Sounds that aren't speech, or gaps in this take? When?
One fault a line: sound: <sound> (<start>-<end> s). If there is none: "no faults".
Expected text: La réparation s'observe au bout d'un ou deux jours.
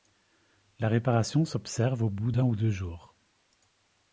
no faults